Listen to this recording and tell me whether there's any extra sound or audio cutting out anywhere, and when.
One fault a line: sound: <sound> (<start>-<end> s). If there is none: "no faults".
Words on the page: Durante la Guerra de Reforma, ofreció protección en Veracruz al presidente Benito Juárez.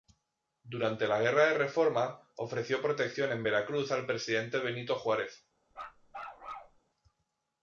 sound: bark (5.7-6.8 s)